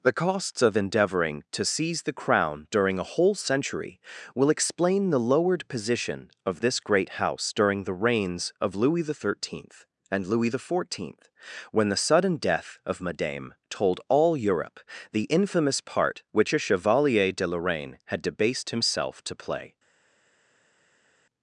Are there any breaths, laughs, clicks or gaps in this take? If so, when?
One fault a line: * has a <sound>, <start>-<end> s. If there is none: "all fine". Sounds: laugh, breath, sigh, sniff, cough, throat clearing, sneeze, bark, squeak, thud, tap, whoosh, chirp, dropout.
all fine